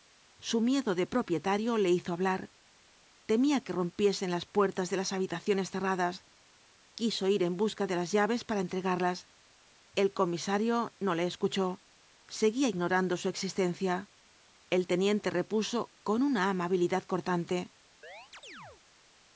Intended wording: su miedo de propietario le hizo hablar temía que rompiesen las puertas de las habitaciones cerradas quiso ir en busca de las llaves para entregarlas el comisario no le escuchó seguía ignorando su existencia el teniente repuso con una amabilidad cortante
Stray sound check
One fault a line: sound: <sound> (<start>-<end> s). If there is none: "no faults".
sound: chirp (18.0-18.8 s)